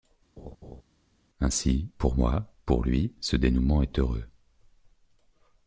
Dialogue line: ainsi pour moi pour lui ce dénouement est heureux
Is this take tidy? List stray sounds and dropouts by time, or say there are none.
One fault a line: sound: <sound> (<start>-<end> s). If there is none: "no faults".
sound: laugh (0.4-0.8 s)